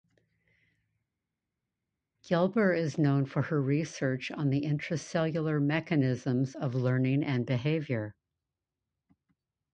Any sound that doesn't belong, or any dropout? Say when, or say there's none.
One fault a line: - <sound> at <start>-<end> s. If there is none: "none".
none